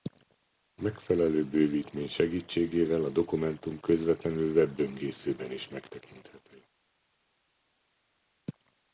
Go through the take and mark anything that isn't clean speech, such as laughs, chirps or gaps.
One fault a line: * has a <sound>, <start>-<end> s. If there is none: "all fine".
all fine